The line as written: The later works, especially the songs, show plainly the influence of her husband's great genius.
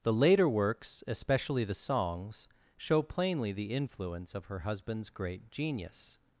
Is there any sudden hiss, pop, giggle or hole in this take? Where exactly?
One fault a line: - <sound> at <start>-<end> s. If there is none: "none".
none